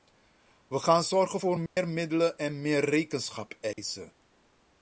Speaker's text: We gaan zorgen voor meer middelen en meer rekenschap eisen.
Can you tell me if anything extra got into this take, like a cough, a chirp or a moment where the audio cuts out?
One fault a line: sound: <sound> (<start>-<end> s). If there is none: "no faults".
sound: dropout (1.7-1.8 s)
sound: dropout (3.7-3.8 s)